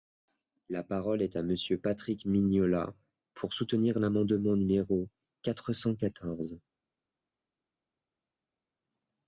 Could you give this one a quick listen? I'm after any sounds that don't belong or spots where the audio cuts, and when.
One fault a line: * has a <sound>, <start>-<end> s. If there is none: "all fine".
all fine